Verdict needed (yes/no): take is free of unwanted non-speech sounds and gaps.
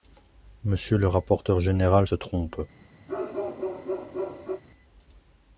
no